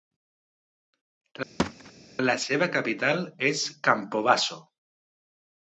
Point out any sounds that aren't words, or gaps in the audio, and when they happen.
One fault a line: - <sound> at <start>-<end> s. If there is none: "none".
- thud at 1.6-1.9 s